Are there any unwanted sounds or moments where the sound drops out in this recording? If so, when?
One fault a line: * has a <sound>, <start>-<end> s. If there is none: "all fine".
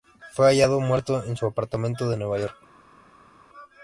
all fine